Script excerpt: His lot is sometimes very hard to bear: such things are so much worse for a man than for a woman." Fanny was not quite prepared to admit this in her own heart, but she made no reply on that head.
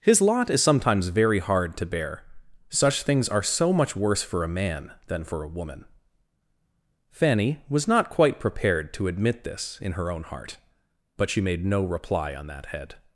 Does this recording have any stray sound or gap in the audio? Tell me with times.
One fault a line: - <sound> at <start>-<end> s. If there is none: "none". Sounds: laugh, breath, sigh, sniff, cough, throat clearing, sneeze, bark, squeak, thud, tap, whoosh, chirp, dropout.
none